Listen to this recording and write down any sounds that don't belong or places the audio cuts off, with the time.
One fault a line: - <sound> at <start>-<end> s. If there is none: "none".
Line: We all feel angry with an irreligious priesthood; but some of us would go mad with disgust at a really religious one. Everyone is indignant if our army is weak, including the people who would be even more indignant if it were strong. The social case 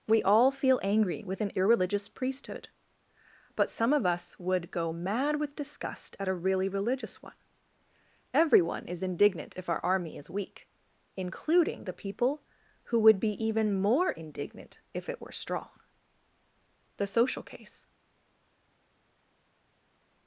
none